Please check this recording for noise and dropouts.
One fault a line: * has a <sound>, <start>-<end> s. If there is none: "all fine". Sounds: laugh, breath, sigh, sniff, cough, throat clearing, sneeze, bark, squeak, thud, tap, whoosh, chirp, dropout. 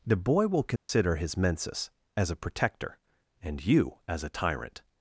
* has a dropout, 0.8-0.9 s